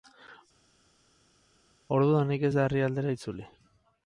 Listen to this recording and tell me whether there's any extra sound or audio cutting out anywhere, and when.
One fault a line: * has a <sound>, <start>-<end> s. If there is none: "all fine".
all fine